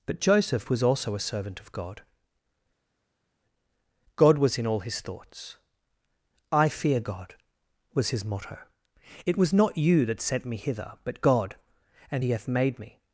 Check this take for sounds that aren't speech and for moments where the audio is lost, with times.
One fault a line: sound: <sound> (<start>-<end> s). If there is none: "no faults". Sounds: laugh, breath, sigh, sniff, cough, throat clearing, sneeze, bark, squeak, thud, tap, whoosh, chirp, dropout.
no faults